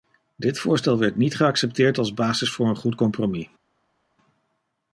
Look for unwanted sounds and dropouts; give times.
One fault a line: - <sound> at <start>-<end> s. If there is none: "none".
none